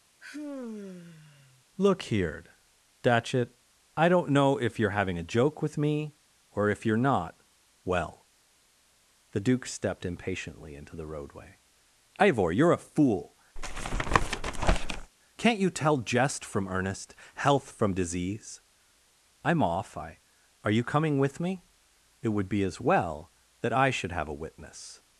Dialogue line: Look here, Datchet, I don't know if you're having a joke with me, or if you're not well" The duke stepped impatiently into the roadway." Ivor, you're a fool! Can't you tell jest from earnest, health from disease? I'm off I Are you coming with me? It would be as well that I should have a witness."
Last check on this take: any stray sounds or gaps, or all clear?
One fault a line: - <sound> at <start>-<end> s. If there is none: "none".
- sigh at 0.2-1.6 s
- tap at 13.6-15.1 s